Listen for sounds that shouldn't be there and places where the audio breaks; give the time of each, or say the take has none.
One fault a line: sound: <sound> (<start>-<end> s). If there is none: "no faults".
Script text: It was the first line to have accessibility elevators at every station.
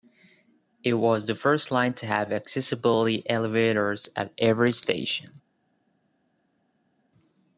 no faults